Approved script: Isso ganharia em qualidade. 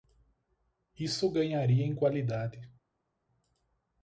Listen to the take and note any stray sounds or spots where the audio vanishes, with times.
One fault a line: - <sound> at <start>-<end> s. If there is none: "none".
none